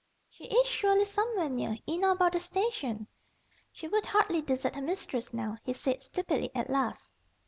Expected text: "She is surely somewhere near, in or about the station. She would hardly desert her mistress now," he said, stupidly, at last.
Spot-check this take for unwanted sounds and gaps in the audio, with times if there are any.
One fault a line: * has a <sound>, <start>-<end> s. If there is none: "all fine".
all fine